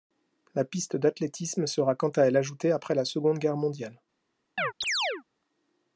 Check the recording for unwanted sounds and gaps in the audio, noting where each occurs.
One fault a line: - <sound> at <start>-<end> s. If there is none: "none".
- chirp at 4.6-5.2 s